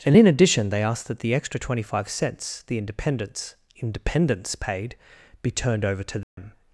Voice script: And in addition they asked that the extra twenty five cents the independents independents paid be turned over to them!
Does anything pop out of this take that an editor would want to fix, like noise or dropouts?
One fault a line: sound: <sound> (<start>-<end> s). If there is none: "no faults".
sound: dropout (6.2-6.4 s)